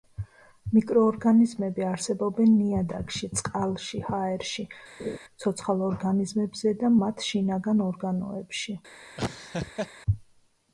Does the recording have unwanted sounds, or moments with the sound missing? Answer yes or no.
yes